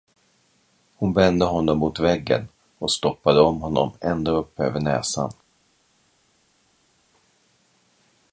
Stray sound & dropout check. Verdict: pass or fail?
pass